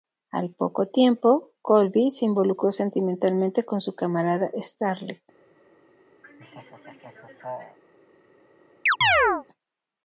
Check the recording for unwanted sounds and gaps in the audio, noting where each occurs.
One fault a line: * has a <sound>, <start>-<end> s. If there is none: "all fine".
* has a laugh, 6.2-7.8 s
* has a chirp, 8.9-9.4 s